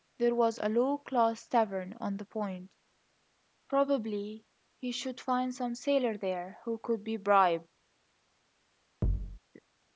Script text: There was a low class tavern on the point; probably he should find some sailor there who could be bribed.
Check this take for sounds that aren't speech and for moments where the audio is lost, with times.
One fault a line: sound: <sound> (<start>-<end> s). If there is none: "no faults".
sound: thud (9.0-9.4 s)